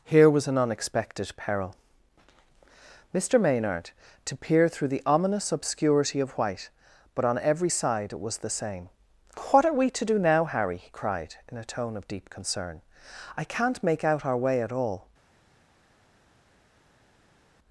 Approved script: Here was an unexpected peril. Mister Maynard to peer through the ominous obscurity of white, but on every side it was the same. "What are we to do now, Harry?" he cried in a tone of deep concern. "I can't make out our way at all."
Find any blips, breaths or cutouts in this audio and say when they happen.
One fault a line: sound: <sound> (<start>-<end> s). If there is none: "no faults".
no faults